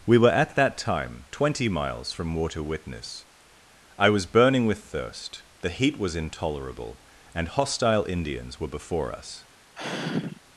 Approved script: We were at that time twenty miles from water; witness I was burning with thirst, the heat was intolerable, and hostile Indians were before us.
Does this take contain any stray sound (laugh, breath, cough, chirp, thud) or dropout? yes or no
yes